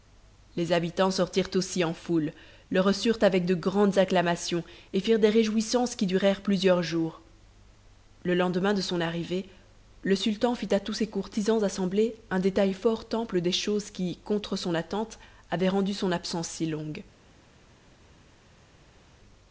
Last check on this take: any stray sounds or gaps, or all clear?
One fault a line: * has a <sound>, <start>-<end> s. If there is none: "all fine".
all fine